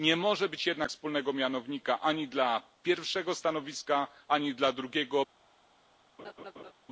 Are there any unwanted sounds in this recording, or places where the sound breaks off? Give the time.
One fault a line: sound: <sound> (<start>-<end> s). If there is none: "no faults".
sound: laugh (6.2-6.7 s)